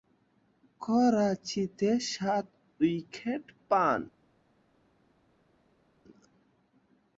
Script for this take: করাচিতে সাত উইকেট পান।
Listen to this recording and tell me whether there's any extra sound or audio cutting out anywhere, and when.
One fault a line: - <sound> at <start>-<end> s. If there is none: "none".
none